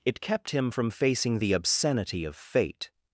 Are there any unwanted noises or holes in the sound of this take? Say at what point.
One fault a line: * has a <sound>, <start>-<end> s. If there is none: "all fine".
all fine